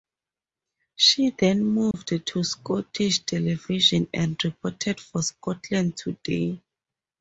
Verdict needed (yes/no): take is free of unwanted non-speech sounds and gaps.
no